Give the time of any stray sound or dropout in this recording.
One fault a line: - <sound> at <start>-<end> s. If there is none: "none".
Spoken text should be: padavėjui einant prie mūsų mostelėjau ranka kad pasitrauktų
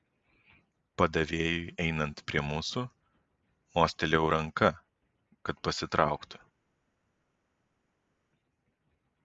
none